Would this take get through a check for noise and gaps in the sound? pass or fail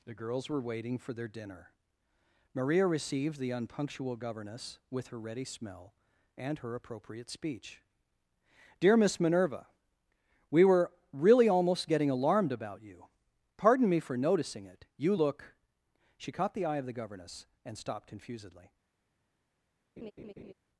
fail